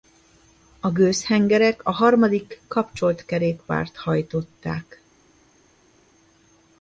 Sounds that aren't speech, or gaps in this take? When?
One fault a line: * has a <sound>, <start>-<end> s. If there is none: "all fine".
all fine